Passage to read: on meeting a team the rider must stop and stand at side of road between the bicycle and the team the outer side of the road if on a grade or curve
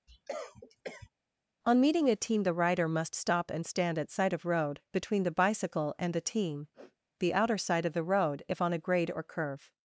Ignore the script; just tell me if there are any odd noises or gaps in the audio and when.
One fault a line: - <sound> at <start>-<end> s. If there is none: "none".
- cough at 0.1-1.1 s
- sniff at 6.7-7.0 s